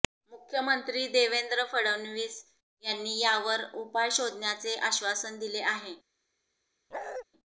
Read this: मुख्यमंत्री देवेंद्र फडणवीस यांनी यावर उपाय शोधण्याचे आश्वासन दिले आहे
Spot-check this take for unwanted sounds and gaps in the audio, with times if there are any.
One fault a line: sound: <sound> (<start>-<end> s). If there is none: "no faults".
sound: bark (6.9-7.2 s)